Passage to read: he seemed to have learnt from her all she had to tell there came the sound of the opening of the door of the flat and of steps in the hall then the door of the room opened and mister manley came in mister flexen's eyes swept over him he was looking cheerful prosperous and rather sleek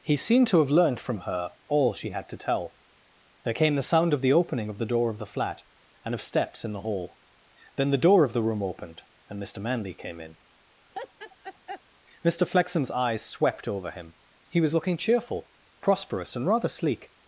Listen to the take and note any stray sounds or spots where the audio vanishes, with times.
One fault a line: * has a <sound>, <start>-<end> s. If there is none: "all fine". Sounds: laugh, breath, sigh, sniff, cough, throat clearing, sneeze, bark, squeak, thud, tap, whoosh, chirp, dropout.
* has a laugh, 10.9-11.8 s